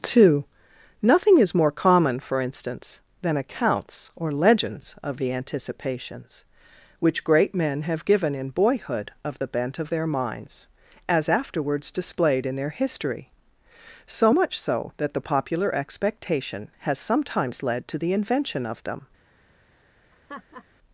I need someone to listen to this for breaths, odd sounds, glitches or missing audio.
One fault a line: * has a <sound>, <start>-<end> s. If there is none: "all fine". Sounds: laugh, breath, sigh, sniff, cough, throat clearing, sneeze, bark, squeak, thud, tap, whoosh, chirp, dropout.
* has a laugh, 20.1-20.7 s